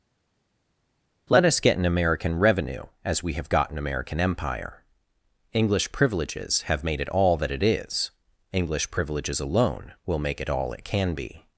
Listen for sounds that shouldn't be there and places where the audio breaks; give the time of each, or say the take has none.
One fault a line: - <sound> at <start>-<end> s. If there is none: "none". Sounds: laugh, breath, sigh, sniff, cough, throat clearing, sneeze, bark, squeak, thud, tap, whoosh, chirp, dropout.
none